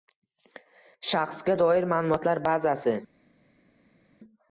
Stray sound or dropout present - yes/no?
no